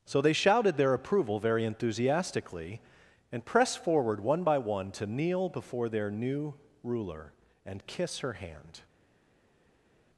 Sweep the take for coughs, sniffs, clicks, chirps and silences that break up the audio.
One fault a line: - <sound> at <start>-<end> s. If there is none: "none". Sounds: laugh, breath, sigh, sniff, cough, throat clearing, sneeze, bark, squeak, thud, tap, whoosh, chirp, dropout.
none